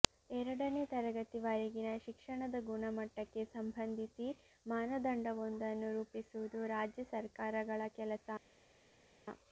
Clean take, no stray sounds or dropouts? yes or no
yes